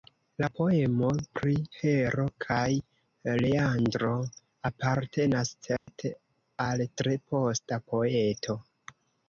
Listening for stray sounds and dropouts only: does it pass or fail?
fail